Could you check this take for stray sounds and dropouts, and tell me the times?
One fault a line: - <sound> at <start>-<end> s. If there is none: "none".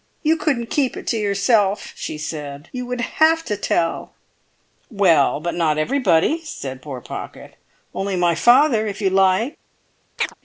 - chirp at 10.2-10.3 s